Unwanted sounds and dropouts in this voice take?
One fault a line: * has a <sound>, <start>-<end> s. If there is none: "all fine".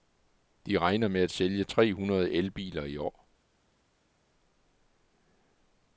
all fine